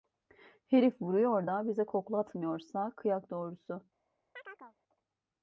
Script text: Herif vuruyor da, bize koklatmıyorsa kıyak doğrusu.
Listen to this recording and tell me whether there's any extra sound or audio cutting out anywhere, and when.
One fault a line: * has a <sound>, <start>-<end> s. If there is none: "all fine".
* has a chirp, 4.3-4.8 s